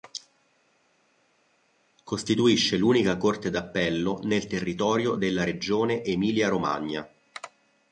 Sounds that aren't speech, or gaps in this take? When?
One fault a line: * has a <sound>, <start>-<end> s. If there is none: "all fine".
all fine